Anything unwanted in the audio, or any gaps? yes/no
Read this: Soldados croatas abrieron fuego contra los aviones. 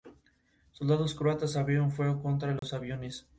yes